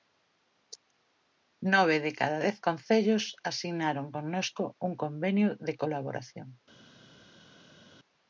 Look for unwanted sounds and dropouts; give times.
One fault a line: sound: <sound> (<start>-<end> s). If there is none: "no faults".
no faults